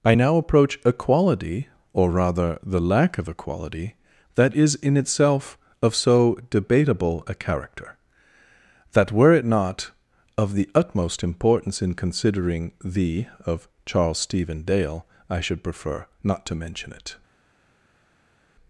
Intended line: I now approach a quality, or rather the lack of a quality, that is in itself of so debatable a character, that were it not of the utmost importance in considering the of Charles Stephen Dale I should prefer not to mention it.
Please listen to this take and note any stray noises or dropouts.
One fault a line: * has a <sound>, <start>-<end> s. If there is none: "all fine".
all fine